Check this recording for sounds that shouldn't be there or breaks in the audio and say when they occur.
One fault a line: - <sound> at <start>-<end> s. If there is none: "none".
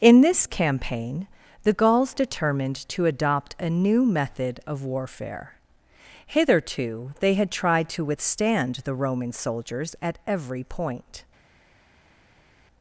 none